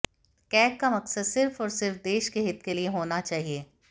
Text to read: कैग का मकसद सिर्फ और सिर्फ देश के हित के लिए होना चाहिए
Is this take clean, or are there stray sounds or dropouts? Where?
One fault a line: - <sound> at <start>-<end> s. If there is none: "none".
none